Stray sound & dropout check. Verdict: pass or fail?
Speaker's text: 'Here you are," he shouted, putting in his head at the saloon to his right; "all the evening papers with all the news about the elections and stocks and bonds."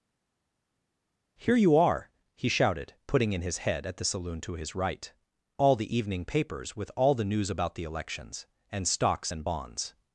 pass